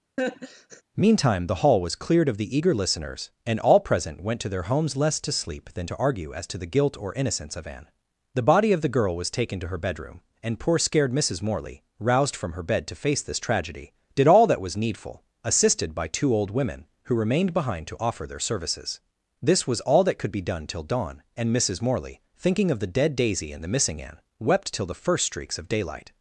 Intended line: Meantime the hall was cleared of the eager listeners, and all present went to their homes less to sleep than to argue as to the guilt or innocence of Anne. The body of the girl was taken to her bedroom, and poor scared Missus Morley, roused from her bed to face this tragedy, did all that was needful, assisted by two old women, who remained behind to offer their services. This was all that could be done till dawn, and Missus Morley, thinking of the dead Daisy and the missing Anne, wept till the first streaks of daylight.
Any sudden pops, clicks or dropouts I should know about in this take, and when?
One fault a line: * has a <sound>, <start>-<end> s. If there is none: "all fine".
* has a laugh, 0.2-0.8 s